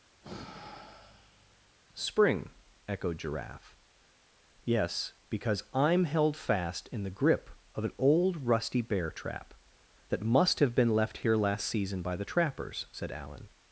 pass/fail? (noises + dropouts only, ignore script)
fail